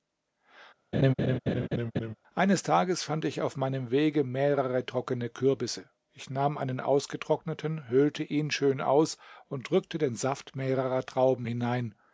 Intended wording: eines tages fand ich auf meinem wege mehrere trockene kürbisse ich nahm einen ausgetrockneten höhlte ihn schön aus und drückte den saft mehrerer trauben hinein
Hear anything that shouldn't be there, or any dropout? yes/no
yes